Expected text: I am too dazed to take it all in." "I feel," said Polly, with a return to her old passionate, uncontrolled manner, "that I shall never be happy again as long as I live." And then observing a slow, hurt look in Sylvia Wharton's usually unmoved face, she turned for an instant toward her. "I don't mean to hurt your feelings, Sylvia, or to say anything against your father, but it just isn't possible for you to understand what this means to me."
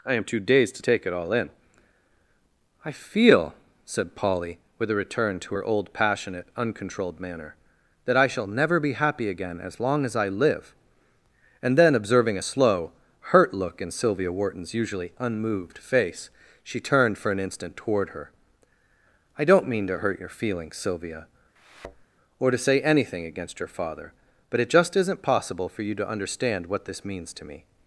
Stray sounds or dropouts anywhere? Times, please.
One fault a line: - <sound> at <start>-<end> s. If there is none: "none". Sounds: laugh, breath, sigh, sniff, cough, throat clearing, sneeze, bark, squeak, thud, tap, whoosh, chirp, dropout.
- thud at 21.6-22.1 s